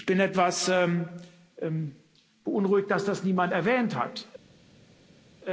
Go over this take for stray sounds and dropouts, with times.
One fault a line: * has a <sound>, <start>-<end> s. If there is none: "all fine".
all fine